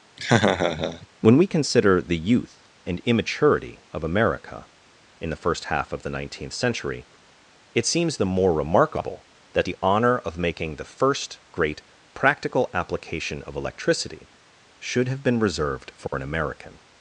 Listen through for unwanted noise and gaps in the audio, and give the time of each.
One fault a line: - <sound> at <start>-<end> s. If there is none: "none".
- laugh at 0.2-1.1 s
- dropout at 16.1-16.1 s